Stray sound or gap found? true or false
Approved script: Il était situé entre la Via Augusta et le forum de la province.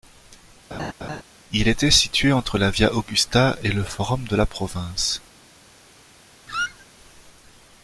true